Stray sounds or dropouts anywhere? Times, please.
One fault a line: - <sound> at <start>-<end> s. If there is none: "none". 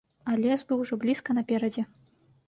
none